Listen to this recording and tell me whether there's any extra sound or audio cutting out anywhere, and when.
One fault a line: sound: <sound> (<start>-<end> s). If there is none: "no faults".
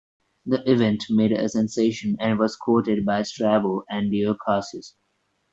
no faults